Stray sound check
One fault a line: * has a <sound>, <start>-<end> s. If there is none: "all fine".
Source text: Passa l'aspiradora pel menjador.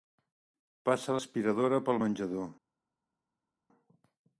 all fine